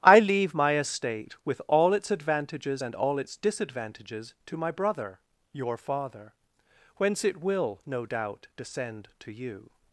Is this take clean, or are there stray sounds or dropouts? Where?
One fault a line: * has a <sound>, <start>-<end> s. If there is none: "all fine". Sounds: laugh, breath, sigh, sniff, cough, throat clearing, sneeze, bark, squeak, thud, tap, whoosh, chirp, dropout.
all fine